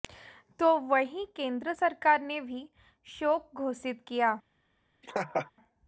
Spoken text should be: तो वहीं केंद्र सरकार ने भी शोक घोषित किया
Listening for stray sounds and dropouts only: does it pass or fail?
fail